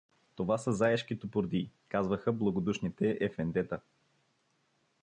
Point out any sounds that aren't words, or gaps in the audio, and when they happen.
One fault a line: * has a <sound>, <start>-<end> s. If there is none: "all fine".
all fine